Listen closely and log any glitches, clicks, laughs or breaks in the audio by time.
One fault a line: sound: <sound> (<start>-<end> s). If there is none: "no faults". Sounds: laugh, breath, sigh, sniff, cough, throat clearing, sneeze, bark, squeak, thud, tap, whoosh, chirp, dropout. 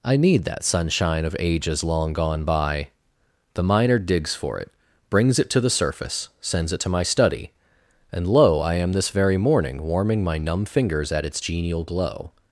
no faults